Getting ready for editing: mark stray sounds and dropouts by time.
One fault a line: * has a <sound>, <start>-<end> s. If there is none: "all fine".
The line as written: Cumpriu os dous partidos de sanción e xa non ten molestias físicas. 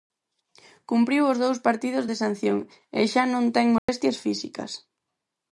* has a dropout, 3.8-3.9 s